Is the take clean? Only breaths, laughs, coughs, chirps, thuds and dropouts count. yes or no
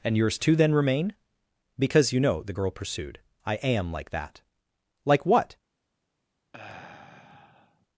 no